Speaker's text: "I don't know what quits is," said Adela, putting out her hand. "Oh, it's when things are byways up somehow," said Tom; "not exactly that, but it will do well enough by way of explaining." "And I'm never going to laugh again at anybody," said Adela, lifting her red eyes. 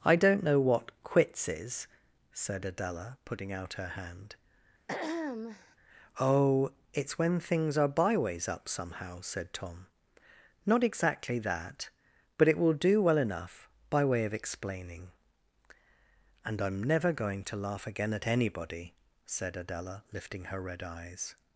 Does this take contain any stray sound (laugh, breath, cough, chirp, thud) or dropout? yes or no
yes